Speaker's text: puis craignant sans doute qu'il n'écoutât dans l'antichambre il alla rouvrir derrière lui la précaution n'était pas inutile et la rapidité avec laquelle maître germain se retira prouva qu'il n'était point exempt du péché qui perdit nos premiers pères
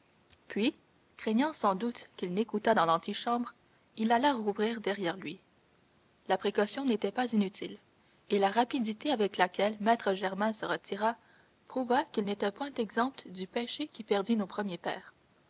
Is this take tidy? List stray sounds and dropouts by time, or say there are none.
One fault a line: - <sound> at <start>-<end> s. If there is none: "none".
none